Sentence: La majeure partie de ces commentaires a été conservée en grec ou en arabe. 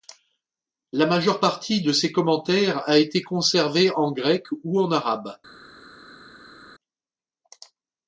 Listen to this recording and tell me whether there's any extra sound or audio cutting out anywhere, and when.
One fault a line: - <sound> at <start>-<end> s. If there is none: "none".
none